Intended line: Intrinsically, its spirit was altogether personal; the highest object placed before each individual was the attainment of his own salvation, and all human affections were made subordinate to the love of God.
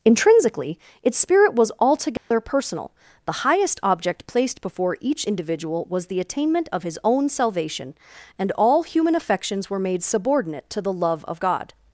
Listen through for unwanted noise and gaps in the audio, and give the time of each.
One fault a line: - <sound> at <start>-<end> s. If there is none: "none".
- dropout at 2.2-2.3 s